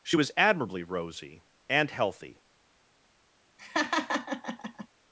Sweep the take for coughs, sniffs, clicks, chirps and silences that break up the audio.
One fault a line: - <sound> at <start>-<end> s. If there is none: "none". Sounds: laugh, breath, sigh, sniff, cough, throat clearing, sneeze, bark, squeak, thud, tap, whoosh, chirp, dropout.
- laugh at 3.6-4.9 s